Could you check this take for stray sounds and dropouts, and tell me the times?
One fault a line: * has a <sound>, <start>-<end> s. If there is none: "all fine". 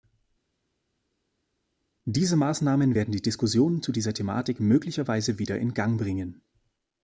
all fine